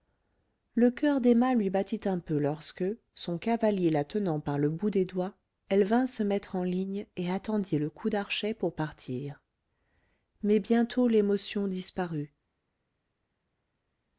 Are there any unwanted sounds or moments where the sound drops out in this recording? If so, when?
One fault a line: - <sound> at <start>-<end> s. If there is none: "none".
none